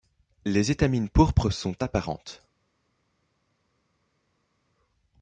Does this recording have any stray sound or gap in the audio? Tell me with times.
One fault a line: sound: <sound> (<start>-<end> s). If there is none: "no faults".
no faults